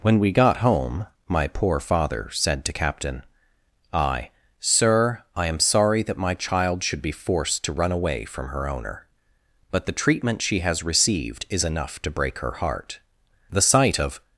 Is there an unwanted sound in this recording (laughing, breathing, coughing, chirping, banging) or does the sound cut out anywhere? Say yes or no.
no